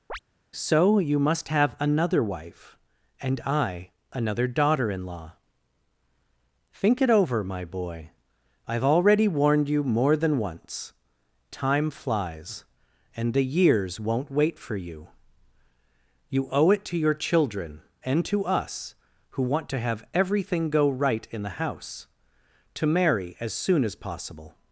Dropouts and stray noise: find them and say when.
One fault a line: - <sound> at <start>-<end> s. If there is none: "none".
- chirp at 0.1-0.2 s